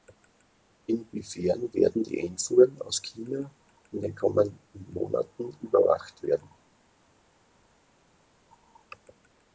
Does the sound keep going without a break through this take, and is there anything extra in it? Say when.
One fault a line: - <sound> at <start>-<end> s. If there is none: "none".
none